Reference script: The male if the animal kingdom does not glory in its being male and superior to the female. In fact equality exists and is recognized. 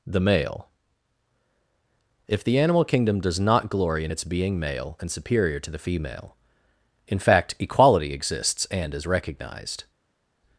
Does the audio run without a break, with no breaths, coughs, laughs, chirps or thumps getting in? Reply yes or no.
yes